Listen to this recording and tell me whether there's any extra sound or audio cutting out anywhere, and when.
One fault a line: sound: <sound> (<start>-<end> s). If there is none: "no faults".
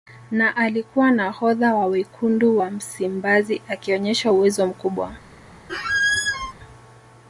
sound: squeak (5.7-6.5 s)